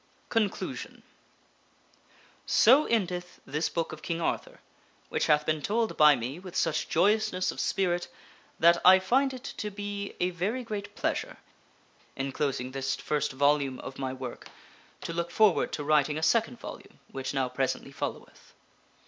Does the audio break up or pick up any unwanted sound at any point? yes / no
no